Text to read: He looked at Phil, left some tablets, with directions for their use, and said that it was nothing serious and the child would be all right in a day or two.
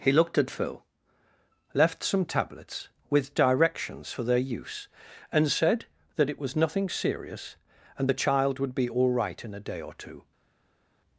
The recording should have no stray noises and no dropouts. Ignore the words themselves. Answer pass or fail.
pass